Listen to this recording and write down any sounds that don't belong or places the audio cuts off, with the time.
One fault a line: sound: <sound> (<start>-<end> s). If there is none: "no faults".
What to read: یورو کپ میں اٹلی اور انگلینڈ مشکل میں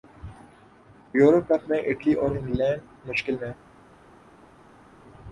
no faults